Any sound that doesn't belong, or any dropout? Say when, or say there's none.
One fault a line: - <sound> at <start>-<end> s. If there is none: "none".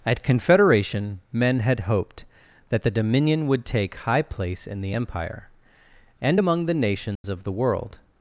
- dropout at 7.1-7.2 s